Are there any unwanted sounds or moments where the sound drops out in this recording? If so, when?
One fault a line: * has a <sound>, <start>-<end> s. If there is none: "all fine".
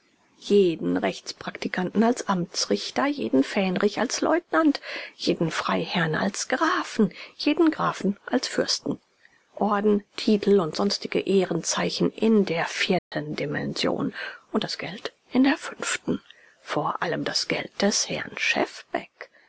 * has a dropout, 13.0-13.1 s